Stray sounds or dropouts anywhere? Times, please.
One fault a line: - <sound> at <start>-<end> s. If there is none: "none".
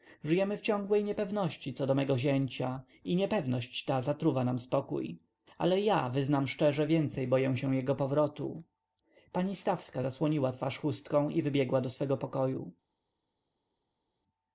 none